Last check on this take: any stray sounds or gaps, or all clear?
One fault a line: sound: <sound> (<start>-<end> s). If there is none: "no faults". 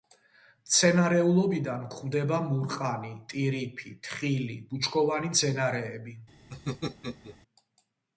sound: laugh (6.5-7.4 s)